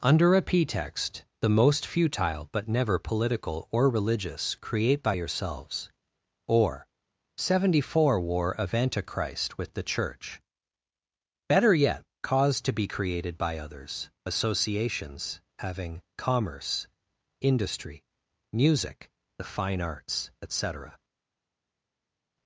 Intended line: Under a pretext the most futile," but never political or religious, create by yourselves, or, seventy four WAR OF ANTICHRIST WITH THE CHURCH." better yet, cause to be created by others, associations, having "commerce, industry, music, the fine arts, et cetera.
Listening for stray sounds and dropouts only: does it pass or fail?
pass